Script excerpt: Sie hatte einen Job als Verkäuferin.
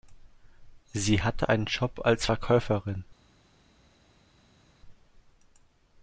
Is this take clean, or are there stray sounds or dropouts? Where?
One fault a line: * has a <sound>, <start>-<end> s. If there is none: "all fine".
all fine